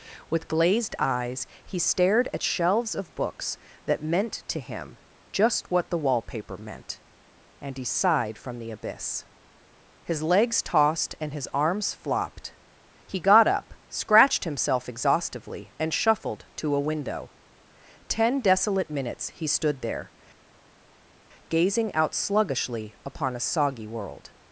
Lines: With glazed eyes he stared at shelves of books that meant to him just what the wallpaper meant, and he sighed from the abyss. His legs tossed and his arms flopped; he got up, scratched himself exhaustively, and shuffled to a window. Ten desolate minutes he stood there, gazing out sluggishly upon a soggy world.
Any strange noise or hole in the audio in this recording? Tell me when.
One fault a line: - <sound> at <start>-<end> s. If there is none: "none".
none